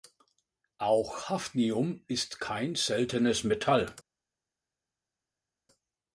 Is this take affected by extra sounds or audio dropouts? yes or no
no